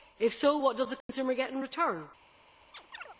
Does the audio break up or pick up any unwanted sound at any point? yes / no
yes